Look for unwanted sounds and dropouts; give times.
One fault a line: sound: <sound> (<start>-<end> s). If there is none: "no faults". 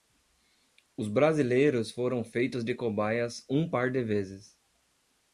no faults